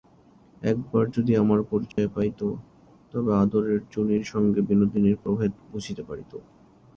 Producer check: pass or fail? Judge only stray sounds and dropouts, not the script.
fail